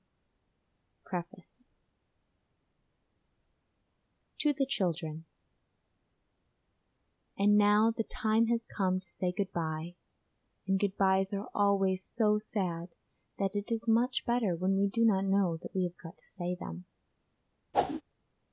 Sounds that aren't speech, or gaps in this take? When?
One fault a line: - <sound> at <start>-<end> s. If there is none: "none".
- whoosh at 17.7-18.0 s